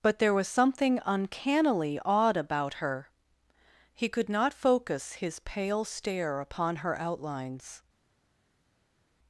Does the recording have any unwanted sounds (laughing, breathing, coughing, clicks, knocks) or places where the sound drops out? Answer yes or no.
no